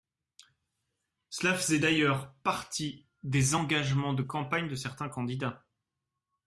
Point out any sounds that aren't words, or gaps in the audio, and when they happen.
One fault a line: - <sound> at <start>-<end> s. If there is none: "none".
none